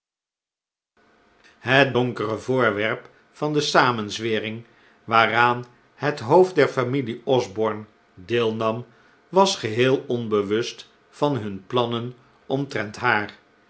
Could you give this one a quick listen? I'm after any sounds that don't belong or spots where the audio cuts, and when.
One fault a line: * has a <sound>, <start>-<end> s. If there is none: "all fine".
all fine